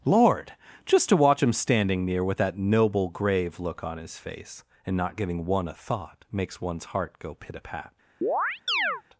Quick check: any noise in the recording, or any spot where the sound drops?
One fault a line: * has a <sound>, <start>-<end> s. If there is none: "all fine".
* has a chirp, 8.2-9.0 s